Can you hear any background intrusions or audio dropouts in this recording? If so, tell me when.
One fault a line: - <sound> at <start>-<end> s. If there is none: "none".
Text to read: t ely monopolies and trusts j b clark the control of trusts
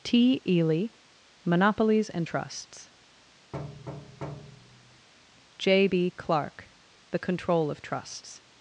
- thud at 3.5-5.1 s